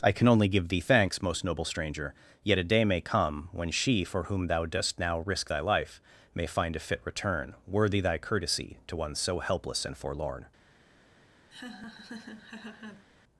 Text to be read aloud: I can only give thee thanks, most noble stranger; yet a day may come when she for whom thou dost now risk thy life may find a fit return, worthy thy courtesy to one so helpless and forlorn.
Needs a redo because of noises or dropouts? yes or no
yes